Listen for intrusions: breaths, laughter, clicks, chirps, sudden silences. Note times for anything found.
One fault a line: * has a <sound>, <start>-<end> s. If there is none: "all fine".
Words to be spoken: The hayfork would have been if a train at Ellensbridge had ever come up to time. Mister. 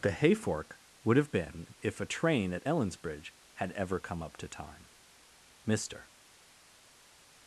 all fine